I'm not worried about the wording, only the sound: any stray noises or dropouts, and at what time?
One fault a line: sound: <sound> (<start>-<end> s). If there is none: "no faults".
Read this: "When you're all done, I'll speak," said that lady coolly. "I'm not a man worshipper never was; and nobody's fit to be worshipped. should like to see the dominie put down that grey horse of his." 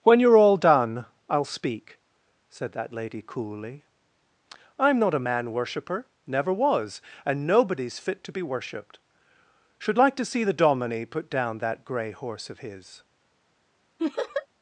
sound: laugh (14.0-14.5 s)